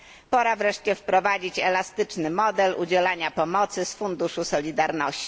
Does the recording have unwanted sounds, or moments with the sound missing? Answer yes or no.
no